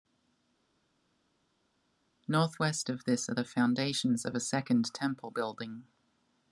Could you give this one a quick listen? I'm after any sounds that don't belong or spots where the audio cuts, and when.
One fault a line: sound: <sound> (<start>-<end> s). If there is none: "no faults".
no faults